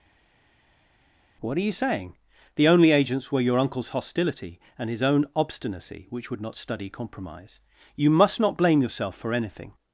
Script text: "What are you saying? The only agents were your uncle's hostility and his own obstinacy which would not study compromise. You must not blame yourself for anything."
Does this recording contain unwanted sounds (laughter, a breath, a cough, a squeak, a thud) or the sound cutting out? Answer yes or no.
no